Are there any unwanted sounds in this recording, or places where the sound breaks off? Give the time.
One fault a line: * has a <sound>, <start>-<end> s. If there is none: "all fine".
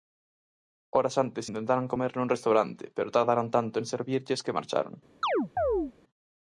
* has a chirp, 5.2-5.9 s